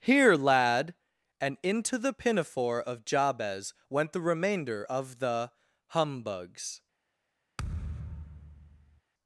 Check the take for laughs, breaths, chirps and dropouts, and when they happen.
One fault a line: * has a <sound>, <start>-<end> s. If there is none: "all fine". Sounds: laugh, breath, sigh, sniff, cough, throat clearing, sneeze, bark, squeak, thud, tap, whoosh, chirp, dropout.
* has a thud, 7.6-9.0 s